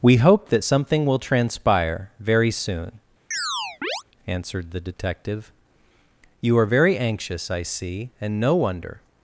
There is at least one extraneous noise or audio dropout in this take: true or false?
true